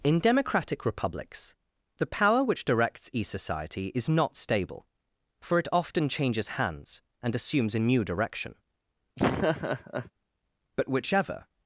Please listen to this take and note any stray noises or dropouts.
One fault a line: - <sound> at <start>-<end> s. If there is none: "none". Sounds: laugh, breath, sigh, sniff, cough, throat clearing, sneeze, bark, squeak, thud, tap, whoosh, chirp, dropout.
- laugh at 9.2-10.1 s